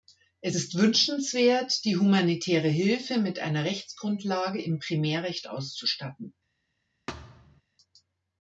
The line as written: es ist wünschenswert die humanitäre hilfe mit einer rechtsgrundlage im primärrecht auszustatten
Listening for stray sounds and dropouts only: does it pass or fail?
fail